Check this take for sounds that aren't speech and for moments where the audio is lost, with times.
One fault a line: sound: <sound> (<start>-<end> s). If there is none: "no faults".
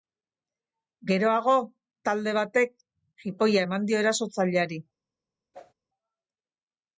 sound: whoosh (5.5-5.7 s)